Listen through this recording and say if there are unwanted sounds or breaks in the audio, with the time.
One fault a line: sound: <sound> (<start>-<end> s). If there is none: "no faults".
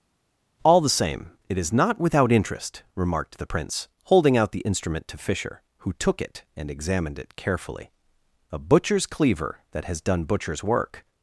no faults